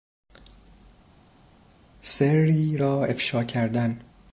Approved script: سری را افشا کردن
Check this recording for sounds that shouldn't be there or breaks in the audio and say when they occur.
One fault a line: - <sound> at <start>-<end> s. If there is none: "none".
none